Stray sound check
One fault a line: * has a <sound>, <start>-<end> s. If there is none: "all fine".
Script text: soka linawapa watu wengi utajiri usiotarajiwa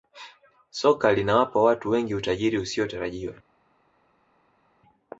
all fine